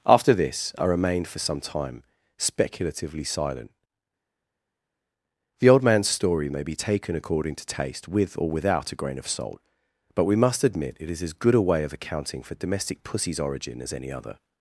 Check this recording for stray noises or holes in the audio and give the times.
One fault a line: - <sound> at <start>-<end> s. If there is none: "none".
none